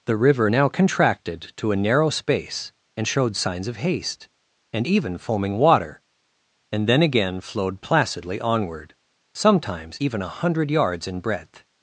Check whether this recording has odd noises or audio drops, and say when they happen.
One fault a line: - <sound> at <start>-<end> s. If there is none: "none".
none